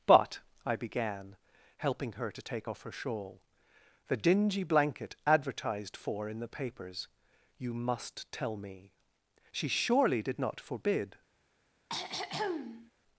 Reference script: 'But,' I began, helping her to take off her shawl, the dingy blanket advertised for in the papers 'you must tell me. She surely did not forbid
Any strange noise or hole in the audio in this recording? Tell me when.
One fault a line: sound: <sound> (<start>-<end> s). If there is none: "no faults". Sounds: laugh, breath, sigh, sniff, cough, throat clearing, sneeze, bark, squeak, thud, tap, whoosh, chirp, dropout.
sound: throat clearing (11.9-12.9 s)